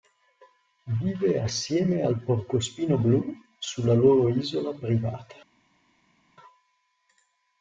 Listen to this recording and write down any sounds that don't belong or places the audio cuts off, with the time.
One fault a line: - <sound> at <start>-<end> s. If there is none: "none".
none